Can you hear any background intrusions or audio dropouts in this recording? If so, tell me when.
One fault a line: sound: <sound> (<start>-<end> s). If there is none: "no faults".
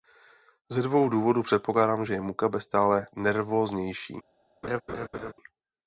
sound: laugh (4.6-5.3 s)